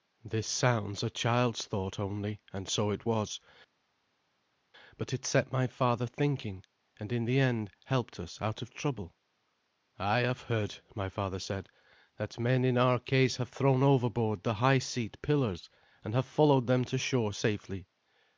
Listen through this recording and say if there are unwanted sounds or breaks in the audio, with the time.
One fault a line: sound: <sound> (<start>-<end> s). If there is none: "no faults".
no faults